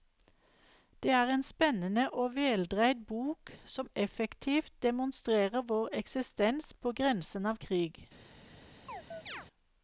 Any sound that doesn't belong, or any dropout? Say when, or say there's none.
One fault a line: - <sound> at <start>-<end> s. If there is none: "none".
- chirp at 8.9-9.5 s